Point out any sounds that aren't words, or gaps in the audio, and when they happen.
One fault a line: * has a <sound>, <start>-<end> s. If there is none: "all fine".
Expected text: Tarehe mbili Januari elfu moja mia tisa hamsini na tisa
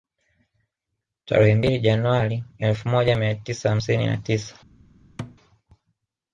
* has a thud, 5.2-5.4 s